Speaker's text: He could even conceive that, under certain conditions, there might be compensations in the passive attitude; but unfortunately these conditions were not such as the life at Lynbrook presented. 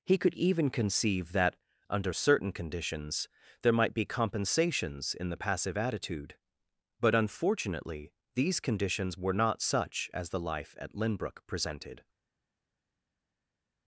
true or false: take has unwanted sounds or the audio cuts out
false